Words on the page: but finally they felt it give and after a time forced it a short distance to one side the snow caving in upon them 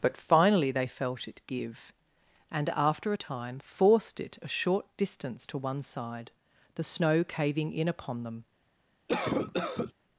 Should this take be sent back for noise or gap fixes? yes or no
yes